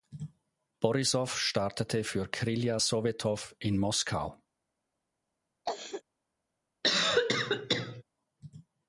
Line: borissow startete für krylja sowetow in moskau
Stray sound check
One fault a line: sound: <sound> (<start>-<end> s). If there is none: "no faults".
sound: cough (5.7-6.0 s)
sound: cough (6.8-8.0 s)